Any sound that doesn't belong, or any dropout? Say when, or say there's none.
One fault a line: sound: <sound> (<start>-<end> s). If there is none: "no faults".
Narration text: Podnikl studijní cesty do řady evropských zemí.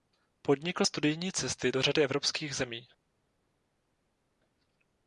no faults